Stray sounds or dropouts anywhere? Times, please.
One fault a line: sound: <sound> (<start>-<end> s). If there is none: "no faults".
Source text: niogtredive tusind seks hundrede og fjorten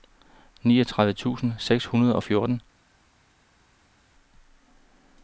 no faults